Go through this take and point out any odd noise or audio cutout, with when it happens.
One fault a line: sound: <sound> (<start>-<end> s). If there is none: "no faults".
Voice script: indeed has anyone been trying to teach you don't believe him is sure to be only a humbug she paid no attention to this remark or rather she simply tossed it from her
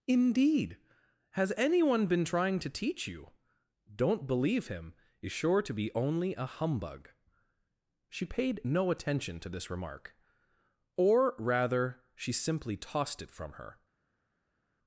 no faults